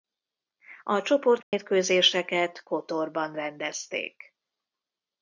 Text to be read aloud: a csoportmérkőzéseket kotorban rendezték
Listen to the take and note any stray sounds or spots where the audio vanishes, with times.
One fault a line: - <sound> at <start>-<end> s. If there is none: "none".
- dropout at 1.4-1.5 s